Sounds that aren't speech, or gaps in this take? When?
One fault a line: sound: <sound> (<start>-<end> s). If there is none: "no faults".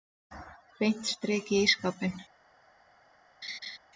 sound: laugh (3.4-3.8 s)